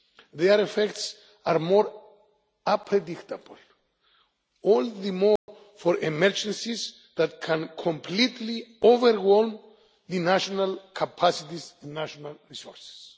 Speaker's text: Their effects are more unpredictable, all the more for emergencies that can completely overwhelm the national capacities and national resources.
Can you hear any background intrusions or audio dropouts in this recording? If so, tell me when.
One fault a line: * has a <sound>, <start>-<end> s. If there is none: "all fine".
* has a dropout, 5.4-5.5 s